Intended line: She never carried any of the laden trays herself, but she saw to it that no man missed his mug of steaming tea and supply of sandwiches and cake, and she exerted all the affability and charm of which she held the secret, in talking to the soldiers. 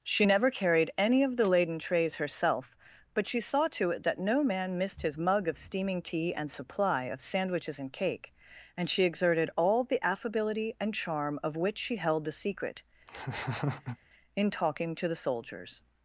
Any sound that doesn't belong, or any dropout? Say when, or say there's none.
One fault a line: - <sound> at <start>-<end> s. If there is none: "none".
- laugh at 13.1-14.0 s